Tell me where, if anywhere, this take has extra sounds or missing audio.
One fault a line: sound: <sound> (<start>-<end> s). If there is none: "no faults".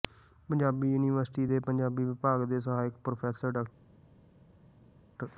no faults